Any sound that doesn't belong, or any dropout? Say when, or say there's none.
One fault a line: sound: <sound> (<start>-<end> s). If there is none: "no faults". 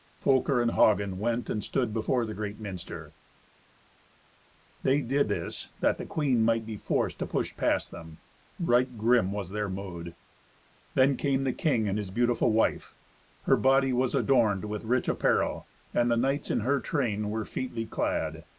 no faults